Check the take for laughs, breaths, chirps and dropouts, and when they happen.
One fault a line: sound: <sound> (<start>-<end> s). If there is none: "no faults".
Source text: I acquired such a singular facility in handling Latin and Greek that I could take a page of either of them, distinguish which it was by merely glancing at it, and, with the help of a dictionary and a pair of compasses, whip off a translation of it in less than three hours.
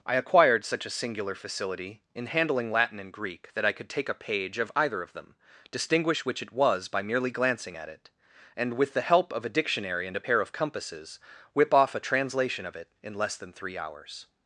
no faults